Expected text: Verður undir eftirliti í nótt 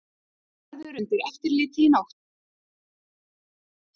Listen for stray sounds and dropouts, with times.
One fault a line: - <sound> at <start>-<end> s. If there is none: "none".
none